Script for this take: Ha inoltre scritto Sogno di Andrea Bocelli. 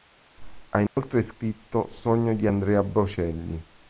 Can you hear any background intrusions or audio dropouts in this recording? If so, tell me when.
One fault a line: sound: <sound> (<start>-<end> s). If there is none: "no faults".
sound: dropout (0.9-1.0 s)